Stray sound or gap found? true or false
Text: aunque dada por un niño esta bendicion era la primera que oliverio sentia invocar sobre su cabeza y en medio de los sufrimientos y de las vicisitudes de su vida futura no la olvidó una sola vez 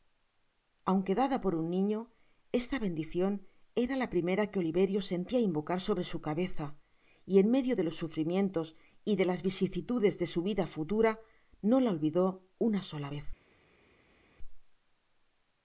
false